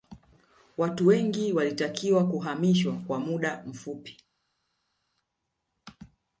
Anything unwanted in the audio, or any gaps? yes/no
no